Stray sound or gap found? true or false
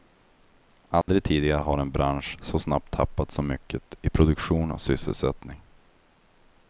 true